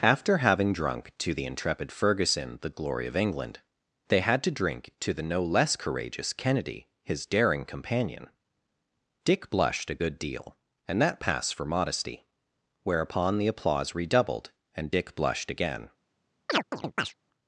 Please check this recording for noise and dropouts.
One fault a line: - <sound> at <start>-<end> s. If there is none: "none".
- chirp at 16.5-17.1 s